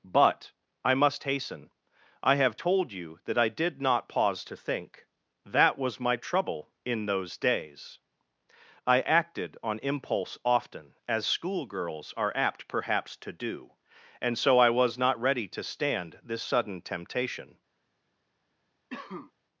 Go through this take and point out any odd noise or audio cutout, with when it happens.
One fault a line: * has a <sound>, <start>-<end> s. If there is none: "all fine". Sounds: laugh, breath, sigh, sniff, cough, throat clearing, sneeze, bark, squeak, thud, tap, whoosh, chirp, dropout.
* has a cough, 18.9-19.3 s